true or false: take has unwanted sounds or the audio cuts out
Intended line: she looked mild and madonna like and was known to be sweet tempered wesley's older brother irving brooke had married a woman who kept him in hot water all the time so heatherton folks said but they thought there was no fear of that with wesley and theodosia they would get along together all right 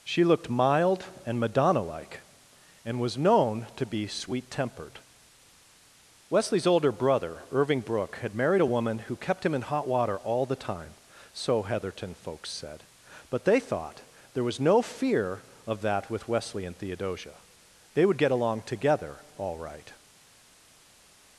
false